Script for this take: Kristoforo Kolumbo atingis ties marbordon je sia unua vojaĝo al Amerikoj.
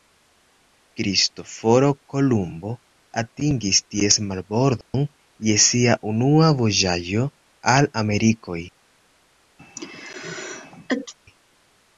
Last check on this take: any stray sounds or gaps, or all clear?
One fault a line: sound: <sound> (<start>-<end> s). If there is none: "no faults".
sound: dropout (4.8-4.9 s)
sound: sneeze (9.6-11.1 s)